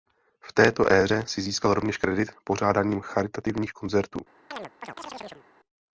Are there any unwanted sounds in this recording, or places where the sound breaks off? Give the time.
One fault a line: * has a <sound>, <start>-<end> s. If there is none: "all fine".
* has a chirp, 4.5-5.5 s